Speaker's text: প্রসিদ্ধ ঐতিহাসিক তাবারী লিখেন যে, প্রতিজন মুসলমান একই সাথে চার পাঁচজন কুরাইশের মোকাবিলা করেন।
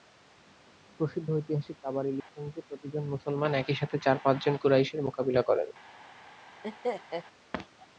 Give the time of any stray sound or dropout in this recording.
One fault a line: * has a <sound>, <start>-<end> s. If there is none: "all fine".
* has a dropout, 2.2-2.3 s
* has a laugh, 6.6-7.2 s